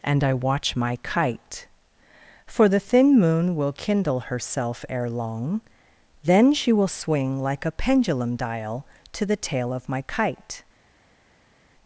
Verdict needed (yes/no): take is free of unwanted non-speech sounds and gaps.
yes